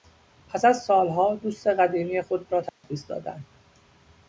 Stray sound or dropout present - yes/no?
yes